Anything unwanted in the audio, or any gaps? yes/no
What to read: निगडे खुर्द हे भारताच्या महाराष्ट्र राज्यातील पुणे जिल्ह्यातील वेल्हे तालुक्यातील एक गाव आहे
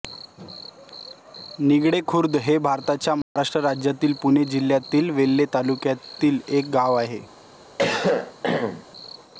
yes